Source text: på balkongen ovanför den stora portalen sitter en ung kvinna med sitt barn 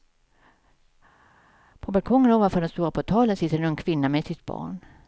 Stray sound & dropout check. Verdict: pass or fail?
pass